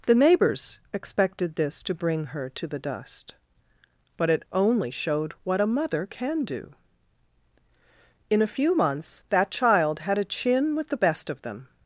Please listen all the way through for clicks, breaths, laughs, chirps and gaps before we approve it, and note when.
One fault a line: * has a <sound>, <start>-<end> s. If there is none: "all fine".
all fine